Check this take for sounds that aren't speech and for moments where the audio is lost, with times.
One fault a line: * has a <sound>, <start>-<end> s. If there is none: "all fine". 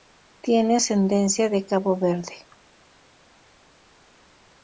all fine